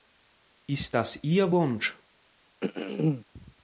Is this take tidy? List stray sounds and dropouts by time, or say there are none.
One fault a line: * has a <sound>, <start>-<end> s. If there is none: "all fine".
* has a throat clearing, 2.6-3.2 s